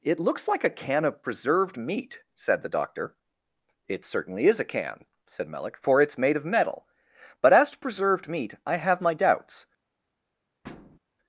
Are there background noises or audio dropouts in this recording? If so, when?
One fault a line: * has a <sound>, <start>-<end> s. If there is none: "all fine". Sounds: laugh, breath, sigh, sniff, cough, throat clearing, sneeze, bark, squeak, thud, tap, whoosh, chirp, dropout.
* has a thud, 10.6-11.0 s